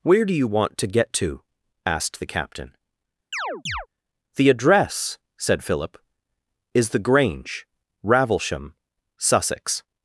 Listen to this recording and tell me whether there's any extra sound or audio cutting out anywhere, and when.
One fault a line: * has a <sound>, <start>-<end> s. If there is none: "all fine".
* has a chirp, 3.3-3.9 s